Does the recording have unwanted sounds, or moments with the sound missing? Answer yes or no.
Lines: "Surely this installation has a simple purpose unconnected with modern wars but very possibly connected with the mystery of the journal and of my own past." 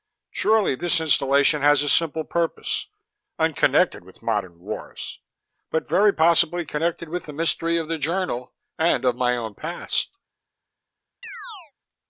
yes